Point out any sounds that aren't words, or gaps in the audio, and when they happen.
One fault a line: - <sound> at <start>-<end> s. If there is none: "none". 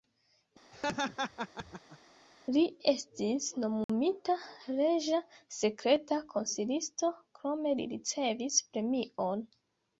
- laugh at 0.7-2.0 s
- dropout at 3.8-3.9 s